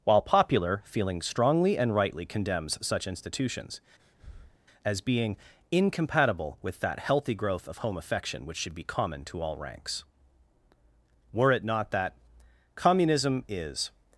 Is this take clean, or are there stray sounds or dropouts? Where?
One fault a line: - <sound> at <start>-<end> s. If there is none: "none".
- breath at 4.0-4.6 s